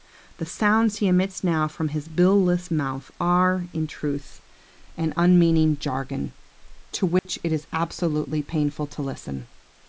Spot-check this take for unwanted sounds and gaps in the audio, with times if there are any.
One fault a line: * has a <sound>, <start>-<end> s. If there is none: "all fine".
* has a dropout, 7.2-7.3 s